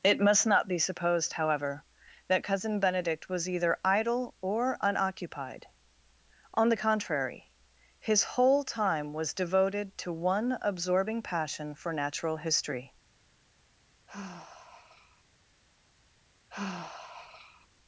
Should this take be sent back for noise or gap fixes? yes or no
yes